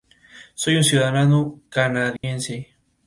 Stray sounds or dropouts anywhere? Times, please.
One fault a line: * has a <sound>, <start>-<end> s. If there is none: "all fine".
* has a dropout, 2.2-2.2 s